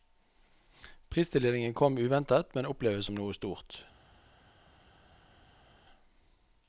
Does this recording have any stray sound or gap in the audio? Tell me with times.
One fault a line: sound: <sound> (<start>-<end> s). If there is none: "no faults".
no faults